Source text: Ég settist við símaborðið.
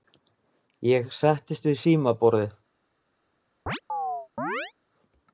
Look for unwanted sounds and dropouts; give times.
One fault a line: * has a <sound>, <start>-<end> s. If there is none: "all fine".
* has a chirp, 3.7-4.7 s